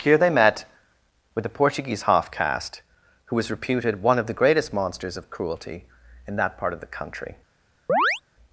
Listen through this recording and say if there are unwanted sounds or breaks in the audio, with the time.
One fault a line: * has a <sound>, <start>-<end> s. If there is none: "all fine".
* has a chirp, 7.9-8.2 s